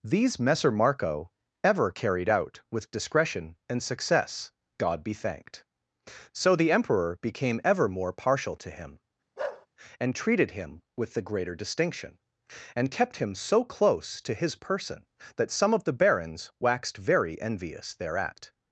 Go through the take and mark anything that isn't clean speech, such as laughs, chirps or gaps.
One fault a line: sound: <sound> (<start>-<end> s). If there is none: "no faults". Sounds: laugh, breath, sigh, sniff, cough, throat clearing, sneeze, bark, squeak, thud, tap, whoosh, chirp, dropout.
sound: bark (9.4-9.7 s)